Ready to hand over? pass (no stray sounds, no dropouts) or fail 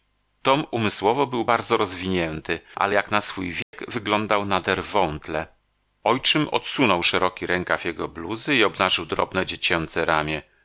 fail